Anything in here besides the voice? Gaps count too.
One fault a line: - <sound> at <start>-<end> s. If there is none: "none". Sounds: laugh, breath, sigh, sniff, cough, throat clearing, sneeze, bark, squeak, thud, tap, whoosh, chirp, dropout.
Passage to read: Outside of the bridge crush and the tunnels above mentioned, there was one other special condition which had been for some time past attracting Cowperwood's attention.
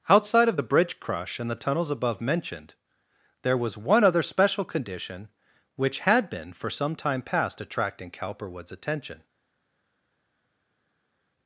none